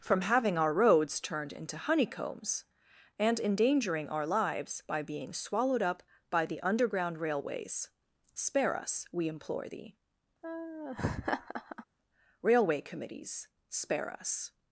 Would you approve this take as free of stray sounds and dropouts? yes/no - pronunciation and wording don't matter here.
no